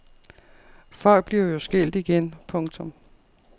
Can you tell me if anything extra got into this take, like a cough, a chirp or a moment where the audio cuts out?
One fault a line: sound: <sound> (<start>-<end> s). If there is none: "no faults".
no faults